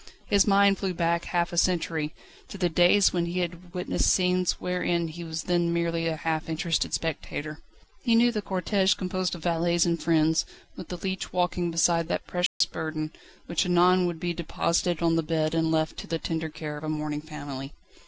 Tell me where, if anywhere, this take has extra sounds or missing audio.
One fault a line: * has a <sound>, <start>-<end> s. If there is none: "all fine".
* has a dropout, 12.5-12.6 s